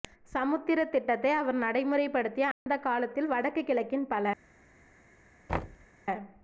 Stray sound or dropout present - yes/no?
yes